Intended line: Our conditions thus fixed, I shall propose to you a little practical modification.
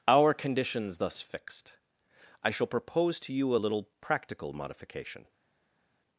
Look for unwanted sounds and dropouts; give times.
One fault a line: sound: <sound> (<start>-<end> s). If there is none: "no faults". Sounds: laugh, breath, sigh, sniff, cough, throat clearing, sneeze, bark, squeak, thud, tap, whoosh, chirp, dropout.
no faults